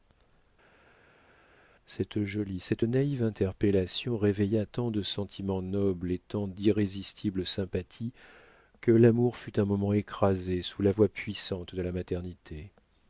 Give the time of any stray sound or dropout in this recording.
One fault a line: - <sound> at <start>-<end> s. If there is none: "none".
none